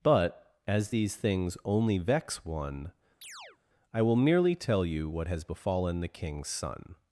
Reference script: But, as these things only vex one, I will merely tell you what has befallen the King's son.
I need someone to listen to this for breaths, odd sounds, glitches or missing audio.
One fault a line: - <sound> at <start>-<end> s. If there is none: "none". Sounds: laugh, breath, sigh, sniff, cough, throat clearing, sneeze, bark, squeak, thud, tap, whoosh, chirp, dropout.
- chirp at 3.2-3.6 s